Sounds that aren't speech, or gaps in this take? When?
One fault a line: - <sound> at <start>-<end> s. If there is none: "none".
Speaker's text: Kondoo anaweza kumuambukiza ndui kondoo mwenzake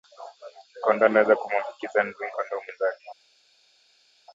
none